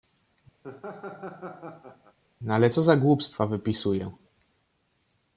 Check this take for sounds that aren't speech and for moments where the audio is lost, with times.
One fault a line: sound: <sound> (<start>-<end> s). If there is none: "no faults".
sound: laugh (0.6-2.2 s)